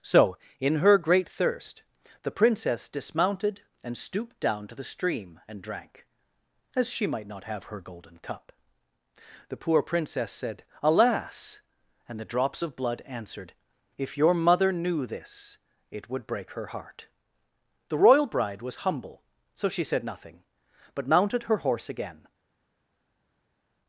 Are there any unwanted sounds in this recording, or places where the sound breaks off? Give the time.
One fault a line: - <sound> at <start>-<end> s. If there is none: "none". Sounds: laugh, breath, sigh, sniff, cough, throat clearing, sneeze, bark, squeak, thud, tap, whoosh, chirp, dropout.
none